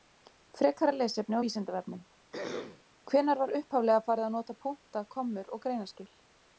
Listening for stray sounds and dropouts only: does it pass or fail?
fail